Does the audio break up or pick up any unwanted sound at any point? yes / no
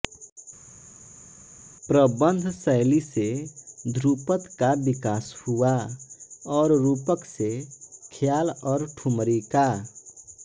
no